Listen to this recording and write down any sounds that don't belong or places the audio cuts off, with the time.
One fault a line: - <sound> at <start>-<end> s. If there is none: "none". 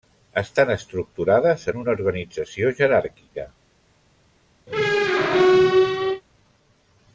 - squeak at 4.7-6.2 s